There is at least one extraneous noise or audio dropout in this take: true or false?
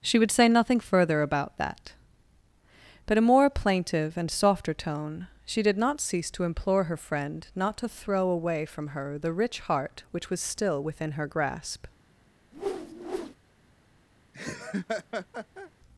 true